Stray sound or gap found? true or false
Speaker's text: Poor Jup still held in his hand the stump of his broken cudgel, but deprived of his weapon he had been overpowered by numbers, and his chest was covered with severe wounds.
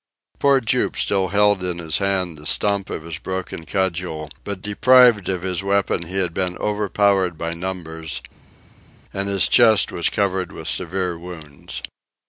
false